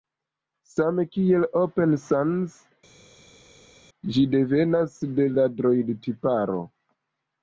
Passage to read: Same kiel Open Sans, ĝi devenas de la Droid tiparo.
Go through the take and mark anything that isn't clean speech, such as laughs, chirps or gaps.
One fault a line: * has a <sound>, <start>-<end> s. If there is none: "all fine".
all fine